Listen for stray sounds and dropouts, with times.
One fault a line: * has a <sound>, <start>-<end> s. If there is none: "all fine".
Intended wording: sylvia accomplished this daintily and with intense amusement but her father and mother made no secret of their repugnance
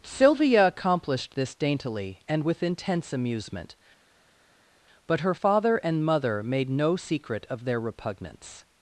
all fine